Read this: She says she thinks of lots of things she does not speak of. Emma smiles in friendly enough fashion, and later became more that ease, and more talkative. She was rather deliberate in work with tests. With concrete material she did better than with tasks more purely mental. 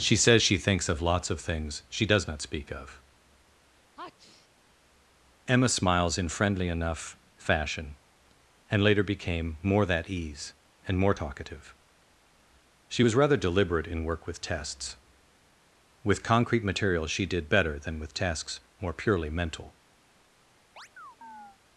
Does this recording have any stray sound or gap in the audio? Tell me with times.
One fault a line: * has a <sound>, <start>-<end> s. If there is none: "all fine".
* has a sneeze, 4.0-4.5 s
* has a chirp, 20.8-21.6 s